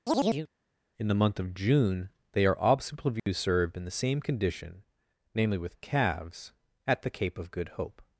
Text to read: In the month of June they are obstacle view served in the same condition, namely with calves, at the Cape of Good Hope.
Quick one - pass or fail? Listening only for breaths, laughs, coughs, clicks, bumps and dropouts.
fail